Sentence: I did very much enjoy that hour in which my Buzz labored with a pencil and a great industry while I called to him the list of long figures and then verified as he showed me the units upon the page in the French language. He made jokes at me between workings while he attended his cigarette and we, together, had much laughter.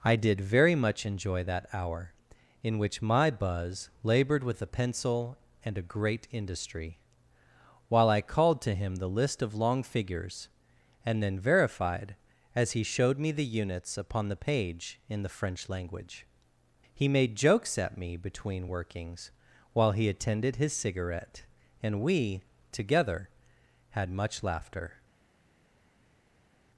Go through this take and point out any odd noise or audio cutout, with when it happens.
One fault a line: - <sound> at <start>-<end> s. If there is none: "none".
none